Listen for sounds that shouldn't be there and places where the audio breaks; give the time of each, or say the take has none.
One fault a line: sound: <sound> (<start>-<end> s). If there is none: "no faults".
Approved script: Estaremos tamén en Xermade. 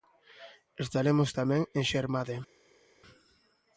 no faults